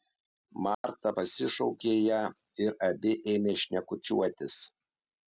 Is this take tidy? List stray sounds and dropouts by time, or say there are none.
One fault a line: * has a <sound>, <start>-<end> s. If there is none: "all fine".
* has a dropout, 0.7-0.8 s